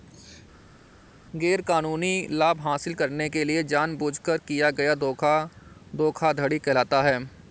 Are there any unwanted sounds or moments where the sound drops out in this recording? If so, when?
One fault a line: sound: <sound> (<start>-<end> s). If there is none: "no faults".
no faults